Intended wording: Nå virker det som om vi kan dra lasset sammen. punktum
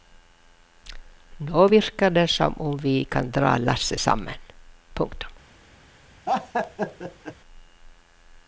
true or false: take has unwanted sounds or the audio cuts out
true